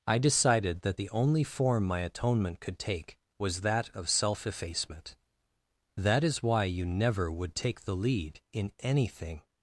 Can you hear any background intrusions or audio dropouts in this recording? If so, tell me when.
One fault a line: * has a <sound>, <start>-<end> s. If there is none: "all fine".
all fine